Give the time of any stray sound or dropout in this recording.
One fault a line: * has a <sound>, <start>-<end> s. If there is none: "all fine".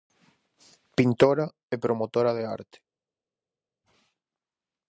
all fine